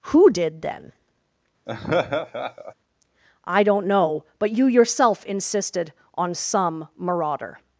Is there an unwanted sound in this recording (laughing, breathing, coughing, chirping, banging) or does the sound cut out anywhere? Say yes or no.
yes